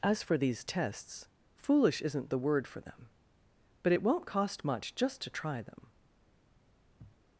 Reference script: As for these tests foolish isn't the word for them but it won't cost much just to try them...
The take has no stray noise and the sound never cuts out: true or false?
false